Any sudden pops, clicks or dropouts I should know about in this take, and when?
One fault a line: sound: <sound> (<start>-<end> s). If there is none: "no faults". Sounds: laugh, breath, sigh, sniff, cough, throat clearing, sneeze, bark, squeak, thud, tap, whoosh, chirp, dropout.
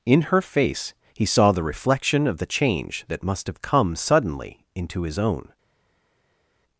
no faults